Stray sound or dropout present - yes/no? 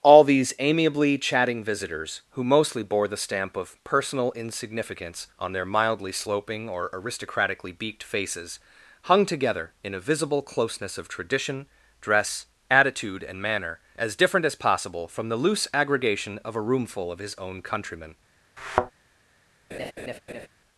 yes